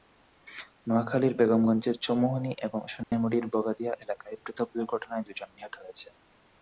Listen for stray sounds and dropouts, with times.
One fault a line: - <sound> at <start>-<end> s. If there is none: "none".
- dropout at 3.0-3.1 s